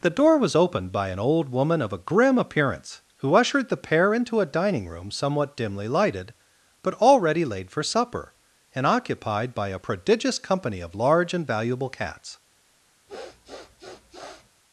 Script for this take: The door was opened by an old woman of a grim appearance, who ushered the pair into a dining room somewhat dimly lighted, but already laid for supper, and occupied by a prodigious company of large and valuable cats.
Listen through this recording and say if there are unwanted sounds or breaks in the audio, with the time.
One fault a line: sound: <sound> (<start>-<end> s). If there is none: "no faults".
sound: sniff (13.1-14.5 s)